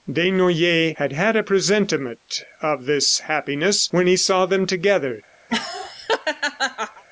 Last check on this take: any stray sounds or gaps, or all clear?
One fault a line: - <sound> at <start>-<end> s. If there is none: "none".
- laugh at 5.5-7.0 s